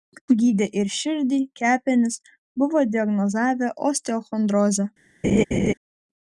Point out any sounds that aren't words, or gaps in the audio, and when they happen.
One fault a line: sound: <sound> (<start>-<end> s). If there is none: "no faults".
sound: laugh (5.2-5.7 s)